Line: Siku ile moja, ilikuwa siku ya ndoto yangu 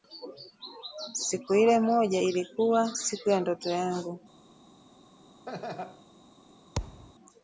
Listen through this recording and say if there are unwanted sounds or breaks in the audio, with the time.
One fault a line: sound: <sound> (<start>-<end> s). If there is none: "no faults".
sound: laugh (5.5-6.1 s)
sound: thud (6.8-7.1 s)